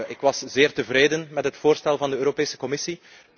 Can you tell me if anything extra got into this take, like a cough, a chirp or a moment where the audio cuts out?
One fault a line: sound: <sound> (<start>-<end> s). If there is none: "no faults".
no faults